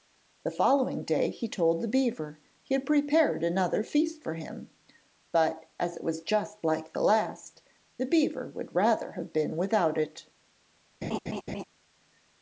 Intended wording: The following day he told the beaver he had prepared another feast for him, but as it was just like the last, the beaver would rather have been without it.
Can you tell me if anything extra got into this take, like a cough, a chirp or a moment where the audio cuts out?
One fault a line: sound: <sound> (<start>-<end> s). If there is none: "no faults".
sound: laugh (11.0-11.6 s)